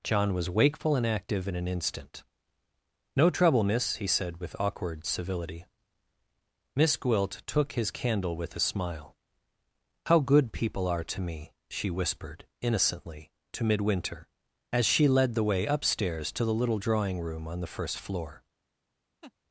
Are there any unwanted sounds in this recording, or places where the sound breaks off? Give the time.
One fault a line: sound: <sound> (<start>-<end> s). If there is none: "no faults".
sound: laugh (19.2-19.3 s)